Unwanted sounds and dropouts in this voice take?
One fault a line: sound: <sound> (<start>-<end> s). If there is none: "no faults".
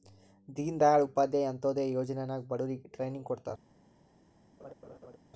sound: laugh (4.6-5.2 s)